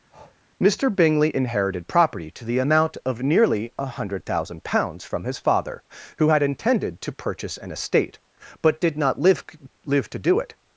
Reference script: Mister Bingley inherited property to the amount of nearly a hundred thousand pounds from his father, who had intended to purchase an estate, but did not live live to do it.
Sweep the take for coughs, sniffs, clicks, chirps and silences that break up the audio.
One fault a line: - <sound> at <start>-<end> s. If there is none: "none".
- breath at 0.1-0.4 s